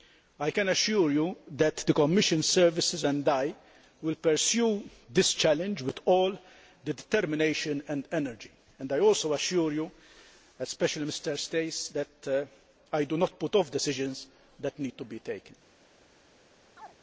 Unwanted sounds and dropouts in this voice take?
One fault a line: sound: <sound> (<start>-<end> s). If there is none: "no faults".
sound: chirp (16.8-17.0 s)